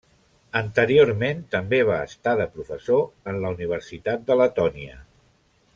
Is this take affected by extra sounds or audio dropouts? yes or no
no